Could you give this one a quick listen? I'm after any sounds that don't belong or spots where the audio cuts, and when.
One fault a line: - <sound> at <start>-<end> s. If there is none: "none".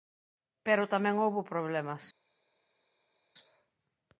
none